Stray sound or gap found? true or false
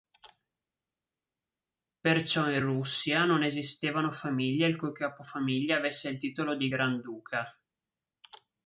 false